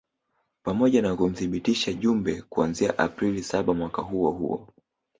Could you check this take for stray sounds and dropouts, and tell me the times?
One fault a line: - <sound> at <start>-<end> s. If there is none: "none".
none